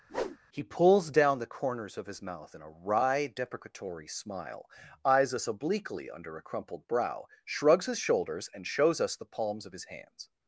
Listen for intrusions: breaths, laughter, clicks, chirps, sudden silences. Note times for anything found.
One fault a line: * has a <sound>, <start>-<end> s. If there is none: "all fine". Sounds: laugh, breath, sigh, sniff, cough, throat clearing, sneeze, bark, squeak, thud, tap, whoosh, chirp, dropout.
* has a whoosh, 0.1-0.4 s